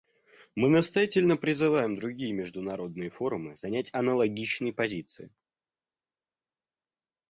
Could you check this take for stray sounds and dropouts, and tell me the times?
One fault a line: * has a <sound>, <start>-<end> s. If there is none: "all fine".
all fine